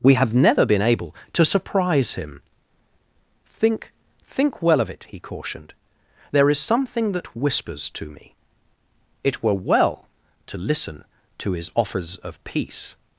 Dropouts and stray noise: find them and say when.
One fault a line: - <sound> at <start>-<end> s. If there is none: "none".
none